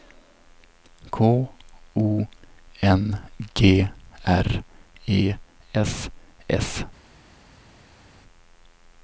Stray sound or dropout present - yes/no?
no